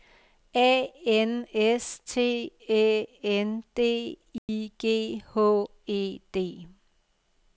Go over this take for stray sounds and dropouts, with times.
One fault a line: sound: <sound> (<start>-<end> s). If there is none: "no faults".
sound: dropout (4.4-4.5 s)